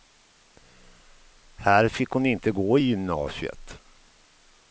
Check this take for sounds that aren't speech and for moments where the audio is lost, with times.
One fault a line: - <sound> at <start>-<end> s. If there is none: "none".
none